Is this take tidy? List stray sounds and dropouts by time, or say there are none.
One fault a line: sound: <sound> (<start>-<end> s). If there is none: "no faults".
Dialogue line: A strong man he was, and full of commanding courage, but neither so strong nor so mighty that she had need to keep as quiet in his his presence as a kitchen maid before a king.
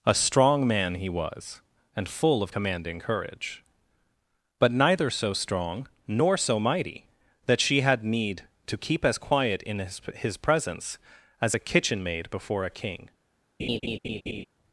sound: laugh (13.6-14.5 s)